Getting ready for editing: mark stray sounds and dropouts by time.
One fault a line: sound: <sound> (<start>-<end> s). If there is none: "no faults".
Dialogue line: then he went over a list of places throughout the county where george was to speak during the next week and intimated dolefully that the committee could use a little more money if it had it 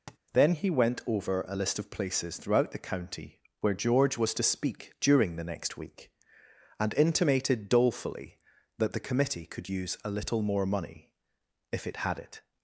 sound: tap (0.1-0.2 s)